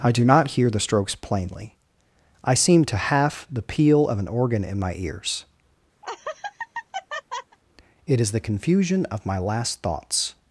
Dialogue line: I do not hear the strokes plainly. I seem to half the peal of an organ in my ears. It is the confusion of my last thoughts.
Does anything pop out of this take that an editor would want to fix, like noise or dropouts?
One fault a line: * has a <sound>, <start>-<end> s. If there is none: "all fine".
* has a laugh, 6.0-7.6 s